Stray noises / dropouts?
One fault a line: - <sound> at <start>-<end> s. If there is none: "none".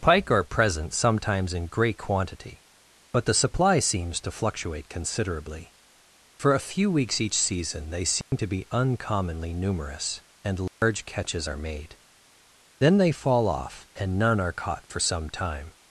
- dropout at 8.2-8.3 s
- dropout at 10.7-10.8 s